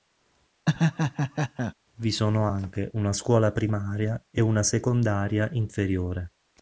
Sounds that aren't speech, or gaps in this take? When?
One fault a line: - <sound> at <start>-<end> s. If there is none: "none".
- laugh at 0.7-1.7 s